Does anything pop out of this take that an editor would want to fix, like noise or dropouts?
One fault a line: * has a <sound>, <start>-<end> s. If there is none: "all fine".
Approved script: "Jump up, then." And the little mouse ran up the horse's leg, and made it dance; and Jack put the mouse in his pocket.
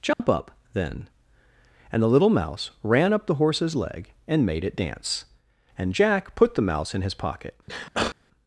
* has a dropout, 0.1-0.2 s
* has a sneeze, 7.7-8.2 s